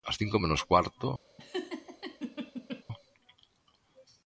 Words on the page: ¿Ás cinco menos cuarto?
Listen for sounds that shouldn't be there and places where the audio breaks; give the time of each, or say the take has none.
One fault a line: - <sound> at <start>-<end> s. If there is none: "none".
- laugh at 1.4-2.8 s